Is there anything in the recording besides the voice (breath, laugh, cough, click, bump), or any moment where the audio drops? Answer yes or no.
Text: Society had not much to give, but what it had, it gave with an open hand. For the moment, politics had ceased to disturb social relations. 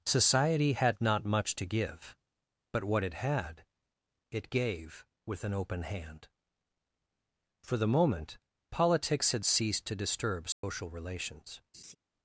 yes